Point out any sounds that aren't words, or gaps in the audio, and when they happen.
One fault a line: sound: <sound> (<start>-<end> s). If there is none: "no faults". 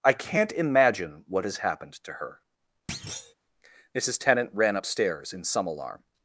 sound: thud (2.9-3.3 s)